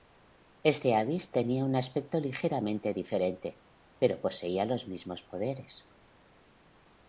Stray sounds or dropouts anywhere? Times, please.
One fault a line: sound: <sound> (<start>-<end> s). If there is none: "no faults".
no faults